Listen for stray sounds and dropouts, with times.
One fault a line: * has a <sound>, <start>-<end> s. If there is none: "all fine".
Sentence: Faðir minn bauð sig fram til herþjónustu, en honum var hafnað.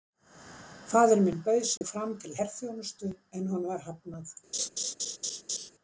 * has a dropout, 1.8-1.8 s
* has a laugh, 4.5-5.7 s